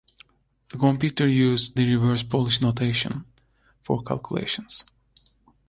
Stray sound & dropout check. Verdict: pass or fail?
pass